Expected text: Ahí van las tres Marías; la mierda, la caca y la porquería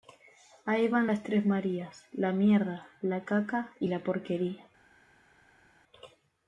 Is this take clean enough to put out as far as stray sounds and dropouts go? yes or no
yes